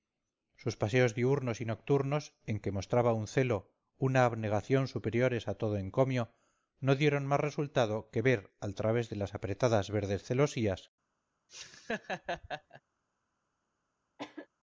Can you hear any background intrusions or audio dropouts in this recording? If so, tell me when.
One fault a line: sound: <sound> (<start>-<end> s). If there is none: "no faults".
sound: laugh (11.5-12.8 s)
sound: cough (14.2-14.5 s)